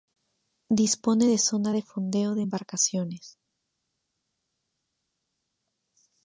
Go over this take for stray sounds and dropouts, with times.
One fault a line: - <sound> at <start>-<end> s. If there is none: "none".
none